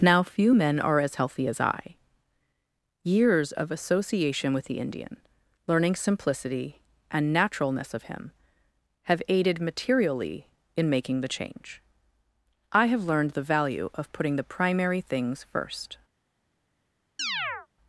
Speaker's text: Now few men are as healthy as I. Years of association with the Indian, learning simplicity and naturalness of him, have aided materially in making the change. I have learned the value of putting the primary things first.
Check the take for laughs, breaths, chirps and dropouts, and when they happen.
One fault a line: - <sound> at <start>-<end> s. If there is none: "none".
- chirp at 17.2-17.7 s